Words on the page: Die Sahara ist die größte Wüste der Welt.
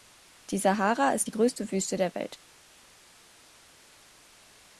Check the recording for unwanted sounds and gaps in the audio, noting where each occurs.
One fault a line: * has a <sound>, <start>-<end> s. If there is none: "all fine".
all fine